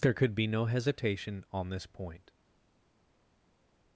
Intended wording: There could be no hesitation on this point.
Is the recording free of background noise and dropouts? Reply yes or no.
yes